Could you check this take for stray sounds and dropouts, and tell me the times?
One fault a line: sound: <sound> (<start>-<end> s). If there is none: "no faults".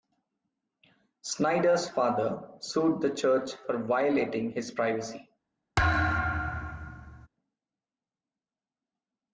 sound: thud (5.8-7.3 s)